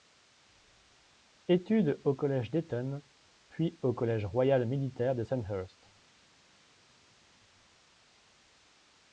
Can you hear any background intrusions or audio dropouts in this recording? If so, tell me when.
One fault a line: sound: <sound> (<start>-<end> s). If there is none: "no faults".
no faults